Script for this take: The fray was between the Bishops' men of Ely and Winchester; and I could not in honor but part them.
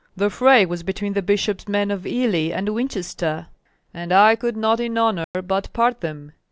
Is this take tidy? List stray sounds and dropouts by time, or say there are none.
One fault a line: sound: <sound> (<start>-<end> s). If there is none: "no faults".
sound: dropout (5.2-5.3 s)